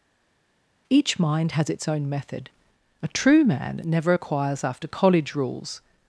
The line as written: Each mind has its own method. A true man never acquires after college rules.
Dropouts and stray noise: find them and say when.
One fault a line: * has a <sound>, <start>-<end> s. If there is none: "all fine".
all fine